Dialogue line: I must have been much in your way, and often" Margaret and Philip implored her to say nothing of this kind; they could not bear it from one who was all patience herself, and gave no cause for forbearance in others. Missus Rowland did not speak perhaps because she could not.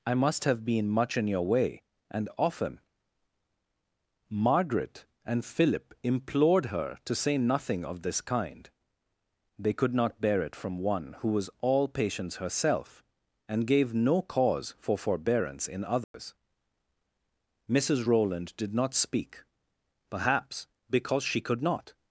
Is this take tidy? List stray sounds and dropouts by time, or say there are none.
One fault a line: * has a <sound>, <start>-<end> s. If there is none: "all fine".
* has a dropout, 16.0-16.1 s